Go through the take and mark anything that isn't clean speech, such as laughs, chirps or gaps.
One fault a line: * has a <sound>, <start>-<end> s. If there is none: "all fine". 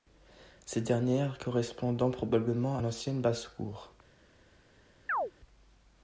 * has a chirp, 5.1-5.3 s